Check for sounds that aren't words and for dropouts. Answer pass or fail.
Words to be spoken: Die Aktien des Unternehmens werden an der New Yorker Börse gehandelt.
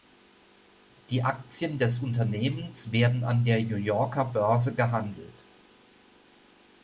pass